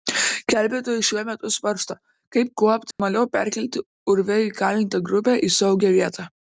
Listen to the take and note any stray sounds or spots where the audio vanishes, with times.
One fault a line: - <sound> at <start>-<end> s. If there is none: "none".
- dropout at 2.9-3.0 s